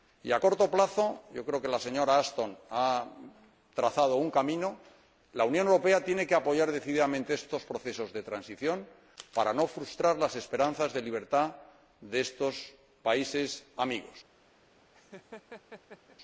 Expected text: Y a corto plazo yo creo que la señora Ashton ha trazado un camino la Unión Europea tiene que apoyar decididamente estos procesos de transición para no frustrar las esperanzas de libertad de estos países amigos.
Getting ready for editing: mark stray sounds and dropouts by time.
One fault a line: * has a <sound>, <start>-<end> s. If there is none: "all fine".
* has a laugh, 14.9-16.2 s